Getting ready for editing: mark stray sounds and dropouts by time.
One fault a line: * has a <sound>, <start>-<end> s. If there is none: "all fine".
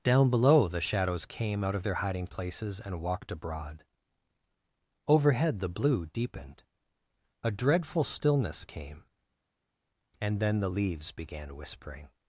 all fine